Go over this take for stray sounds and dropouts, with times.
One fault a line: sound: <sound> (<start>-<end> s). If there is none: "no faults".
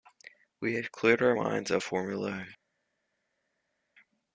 no faults